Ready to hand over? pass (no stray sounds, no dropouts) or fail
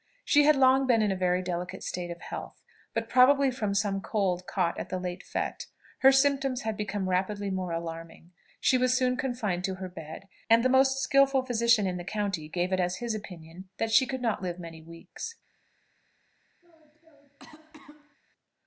fail